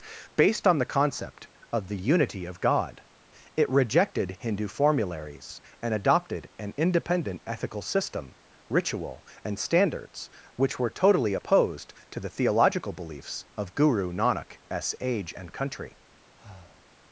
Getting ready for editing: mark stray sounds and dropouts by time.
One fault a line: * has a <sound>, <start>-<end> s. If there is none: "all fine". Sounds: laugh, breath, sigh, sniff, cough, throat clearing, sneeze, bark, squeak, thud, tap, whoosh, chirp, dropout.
* has a breath, 16.4-16.9 s